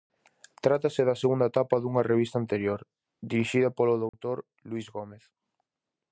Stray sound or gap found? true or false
true